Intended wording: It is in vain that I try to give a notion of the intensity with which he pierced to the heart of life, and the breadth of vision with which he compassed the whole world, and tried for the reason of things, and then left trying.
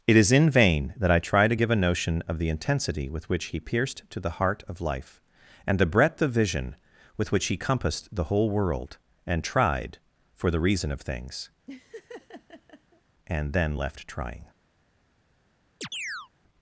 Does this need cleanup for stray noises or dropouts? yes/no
yes